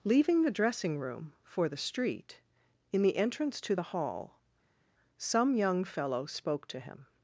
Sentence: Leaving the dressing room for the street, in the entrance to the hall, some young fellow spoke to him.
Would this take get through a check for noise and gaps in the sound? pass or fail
pass